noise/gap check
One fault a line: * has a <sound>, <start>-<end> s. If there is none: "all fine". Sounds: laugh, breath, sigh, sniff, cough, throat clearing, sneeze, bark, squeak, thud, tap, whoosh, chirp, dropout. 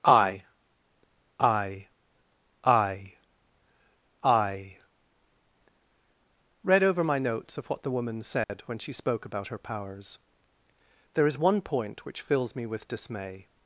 * has a dropout, 8.4-8.5 s